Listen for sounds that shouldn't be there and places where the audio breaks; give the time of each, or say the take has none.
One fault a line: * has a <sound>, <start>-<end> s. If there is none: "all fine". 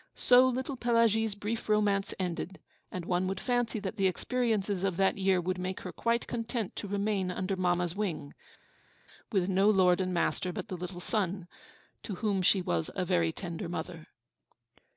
all fine